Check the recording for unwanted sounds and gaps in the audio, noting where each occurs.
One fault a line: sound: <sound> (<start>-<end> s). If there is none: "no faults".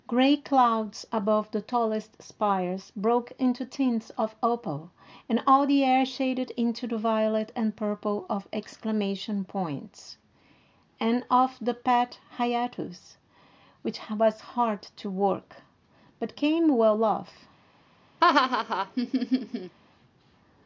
sound: laugh (18.2-19.8 s)